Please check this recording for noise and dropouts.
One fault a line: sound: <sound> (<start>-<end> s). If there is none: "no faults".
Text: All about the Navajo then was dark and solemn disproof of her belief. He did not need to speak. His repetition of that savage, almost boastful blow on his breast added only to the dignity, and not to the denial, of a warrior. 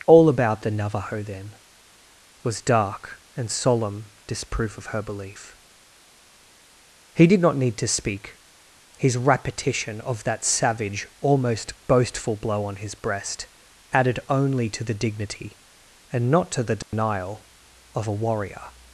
sound: dropout (16.8-16.9 s)